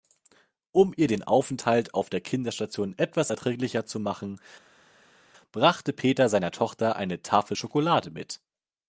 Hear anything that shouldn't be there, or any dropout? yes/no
no